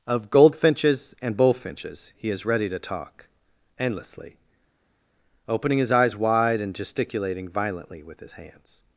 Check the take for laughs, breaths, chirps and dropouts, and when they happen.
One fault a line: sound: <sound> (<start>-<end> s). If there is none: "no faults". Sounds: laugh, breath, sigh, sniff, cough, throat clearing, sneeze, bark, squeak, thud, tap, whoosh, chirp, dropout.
no faults